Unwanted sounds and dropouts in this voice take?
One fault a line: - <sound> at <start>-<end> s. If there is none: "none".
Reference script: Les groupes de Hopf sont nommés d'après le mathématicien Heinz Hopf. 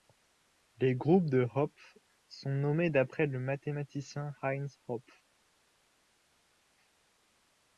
none